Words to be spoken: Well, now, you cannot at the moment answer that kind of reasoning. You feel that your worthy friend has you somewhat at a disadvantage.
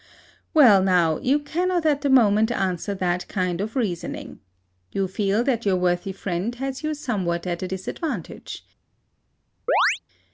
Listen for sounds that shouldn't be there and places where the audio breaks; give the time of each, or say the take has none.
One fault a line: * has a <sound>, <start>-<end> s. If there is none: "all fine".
* has a chirp, 9.7-10.0 s